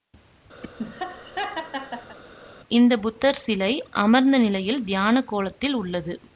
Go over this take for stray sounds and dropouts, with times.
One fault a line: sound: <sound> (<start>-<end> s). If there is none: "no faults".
sound: laugh (0.6-2.2 s)